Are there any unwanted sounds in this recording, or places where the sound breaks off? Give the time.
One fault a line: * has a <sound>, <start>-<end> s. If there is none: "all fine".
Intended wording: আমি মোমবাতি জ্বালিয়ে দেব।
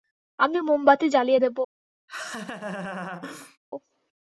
* has a laugh, 2.1-3.6 s